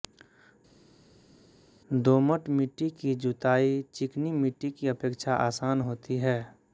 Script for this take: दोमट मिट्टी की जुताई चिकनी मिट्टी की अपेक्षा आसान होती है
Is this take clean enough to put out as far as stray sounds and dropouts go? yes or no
yes